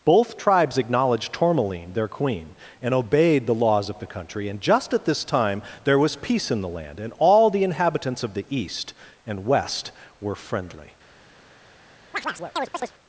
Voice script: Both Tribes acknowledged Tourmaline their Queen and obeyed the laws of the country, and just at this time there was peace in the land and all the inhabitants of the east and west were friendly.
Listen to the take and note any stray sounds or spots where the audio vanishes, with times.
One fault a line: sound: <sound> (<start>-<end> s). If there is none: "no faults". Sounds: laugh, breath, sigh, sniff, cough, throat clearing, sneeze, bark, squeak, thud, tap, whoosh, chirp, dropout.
sound: chirp (12.1-12.9 s)